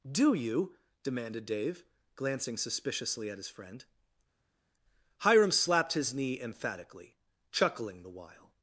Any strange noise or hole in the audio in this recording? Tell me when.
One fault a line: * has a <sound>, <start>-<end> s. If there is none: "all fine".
all fine